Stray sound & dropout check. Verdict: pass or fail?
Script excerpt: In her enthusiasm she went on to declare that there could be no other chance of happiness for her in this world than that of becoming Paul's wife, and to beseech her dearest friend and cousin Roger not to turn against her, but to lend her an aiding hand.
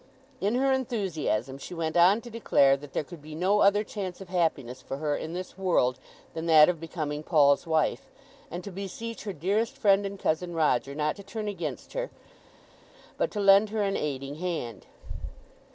pass